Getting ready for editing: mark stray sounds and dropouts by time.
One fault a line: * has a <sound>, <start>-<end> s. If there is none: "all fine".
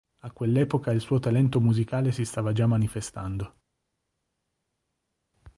all fine